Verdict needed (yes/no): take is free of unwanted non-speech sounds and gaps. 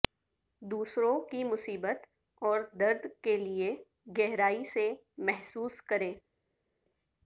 yes